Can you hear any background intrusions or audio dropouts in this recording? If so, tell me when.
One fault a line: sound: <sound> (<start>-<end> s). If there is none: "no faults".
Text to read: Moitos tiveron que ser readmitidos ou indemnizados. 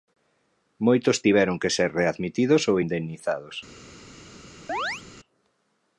sound: chirp (4.7-5.0 s)